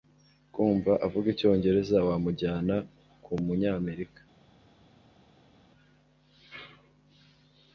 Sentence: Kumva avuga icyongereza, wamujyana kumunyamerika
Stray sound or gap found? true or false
false